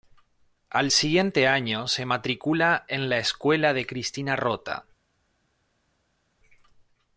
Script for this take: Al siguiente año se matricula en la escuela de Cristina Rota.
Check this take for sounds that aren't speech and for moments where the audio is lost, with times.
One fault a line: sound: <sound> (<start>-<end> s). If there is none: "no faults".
no faults